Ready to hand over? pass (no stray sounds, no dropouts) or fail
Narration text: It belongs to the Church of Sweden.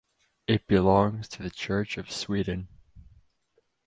pass